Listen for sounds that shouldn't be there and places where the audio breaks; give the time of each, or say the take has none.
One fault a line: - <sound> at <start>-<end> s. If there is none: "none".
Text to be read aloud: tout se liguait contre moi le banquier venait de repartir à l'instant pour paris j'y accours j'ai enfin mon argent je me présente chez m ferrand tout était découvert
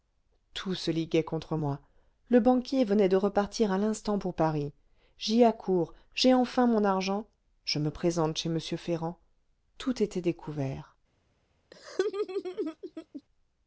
- laugh at 11.7-13.2 s